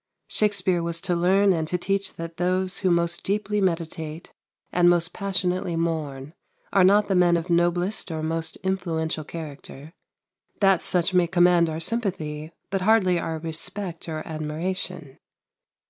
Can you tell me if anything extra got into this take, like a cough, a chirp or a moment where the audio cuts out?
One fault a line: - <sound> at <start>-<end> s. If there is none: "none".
none